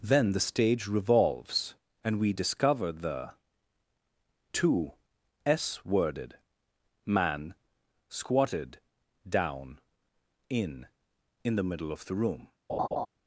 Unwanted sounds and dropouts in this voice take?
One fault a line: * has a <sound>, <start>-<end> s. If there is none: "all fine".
* has a laugh, 12.7-13.1 s